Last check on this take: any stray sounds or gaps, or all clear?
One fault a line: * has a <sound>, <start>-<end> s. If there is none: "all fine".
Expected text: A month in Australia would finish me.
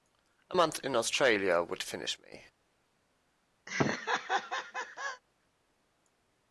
* has a laugh, 3.7-5.2 s